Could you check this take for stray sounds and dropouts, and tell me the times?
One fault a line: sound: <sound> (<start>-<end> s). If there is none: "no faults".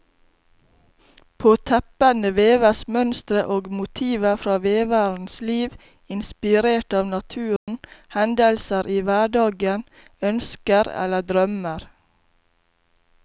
sound: dropout (7.6-7.7 s)